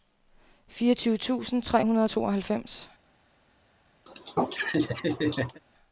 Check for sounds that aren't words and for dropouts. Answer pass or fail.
fail